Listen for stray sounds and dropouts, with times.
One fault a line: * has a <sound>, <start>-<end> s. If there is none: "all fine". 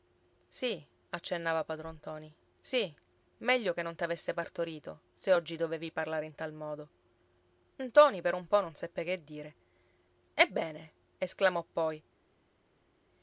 all fine